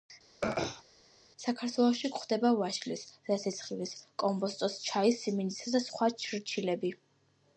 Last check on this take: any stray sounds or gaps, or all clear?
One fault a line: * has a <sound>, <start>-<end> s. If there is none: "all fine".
* has a throat clearing, 0.4-0.8 s